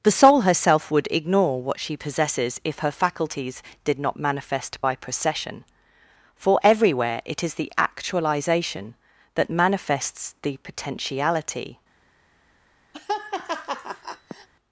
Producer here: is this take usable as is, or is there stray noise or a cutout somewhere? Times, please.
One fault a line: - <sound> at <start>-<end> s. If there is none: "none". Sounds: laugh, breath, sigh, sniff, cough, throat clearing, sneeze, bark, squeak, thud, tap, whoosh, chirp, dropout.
- laugh at 12.9-14.5 s